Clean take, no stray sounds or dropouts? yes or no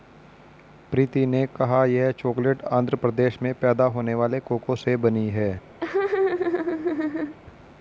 no